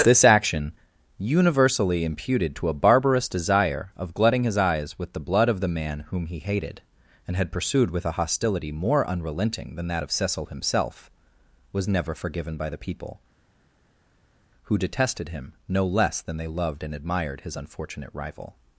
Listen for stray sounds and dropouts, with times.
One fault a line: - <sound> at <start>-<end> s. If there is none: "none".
none